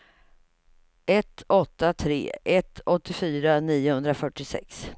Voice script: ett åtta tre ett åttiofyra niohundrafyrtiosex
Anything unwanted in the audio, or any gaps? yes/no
no